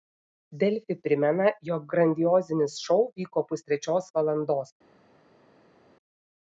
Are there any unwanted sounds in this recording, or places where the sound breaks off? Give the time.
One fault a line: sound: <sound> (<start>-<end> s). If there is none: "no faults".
no faults